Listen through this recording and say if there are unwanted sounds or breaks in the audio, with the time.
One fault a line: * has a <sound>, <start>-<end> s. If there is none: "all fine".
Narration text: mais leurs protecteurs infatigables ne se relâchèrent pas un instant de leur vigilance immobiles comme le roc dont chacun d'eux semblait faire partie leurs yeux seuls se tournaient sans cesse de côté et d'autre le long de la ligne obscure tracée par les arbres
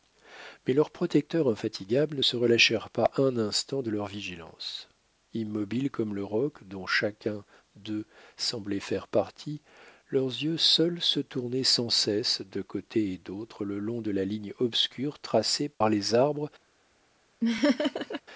* has a dropout, 15.7-15.8 s
* has a laugh, 17.4-18.2 s